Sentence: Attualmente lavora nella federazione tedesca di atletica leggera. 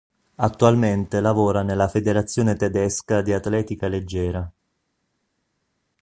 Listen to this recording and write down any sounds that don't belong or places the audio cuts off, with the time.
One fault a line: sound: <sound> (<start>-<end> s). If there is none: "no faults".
no faults